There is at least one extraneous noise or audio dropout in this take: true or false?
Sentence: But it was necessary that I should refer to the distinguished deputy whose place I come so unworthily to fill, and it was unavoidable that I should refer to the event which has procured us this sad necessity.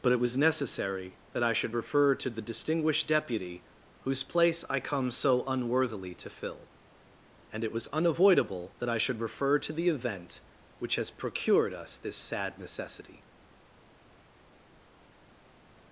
false